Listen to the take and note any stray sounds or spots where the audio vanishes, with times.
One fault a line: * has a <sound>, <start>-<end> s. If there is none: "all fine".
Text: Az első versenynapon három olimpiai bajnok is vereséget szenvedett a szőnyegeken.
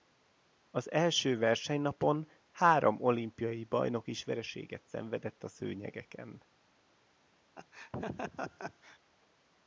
* has a laugh, 7.6-9.0 s